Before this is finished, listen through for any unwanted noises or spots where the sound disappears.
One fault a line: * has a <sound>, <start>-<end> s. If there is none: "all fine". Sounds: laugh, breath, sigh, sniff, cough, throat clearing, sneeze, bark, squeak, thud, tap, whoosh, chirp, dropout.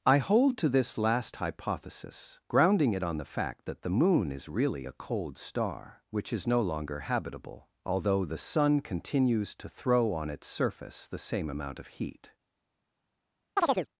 * has a chirp, 13.6-13.9 s